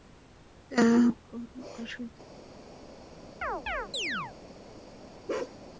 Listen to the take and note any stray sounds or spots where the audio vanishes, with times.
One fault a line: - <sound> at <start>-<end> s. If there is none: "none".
- chirp at 3.4-4.3 s
- bark at 5.3-5.6 s